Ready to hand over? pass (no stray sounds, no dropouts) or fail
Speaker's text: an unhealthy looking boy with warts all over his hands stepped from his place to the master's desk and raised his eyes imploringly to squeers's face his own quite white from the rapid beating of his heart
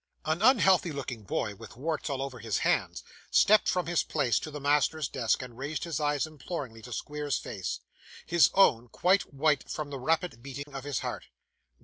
fail